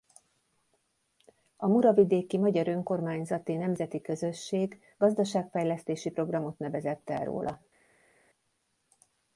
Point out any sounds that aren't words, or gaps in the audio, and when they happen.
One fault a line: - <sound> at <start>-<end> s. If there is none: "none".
none